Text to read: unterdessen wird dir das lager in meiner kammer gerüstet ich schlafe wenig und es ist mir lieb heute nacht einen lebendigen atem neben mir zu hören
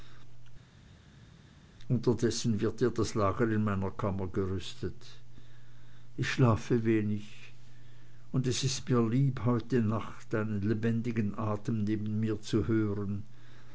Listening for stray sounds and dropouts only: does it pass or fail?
pass